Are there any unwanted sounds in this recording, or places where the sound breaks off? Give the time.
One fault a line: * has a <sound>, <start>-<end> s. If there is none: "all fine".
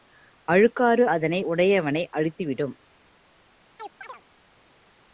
* has a chirp, 3.8-4.2 s